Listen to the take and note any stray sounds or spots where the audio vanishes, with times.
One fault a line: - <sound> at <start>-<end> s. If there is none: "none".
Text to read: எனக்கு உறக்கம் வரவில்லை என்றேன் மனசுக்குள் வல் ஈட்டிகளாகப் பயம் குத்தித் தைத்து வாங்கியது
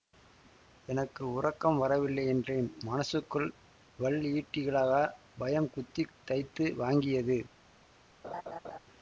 - laugh at 8.2-8.8 s